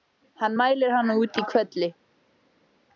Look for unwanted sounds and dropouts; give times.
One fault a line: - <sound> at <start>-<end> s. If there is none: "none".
none